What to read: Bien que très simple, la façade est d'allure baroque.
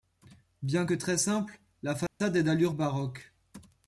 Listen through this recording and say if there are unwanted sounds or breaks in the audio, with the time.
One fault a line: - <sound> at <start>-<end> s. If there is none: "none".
- dropout at 2.1-2.2 s